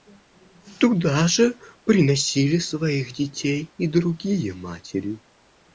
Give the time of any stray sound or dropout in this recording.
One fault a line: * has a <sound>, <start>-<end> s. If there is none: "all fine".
all fine